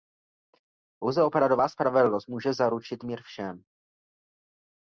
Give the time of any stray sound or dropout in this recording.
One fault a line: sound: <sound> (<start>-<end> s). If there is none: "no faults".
no faults